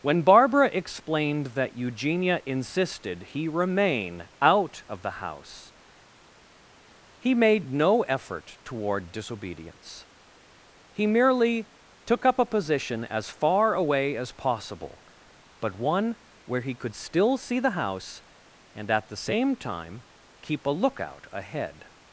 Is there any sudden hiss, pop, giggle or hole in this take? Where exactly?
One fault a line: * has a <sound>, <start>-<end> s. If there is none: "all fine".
all fine